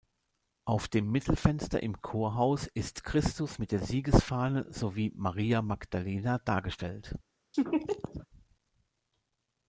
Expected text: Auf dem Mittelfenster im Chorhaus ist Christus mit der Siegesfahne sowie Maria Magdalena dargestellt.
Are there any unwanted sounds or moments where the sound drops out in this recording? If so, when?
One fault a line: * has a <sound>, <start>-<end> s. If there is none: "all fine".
* has a laugh, 7.5-8.3 s